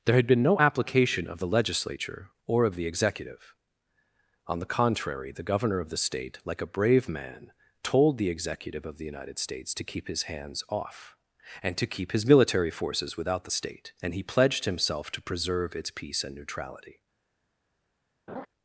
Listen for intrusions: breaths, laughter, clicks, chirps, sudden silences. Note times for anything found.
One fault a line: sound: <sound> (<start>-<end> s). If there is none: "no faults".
sound: laugh (18.3-18.5 s)